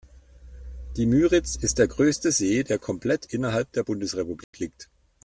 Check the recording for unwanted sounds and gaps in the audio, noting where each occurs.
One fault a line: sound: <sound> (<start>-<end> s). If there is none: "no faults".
sound: dropout (4.4-4.5 s)